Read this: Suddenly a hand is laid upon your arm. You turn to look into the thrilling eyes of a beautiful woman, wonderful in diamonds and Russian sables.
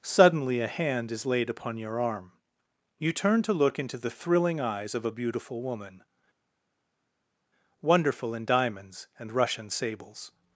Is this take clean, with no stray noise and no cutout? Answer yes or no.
yes